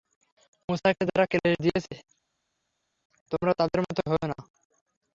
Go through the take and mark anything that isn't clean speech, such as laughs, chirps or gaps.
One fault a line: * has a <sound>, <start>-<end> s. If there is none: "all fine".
all fine